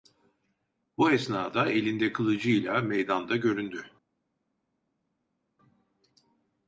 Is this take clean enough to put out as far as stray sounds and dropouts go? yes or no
yes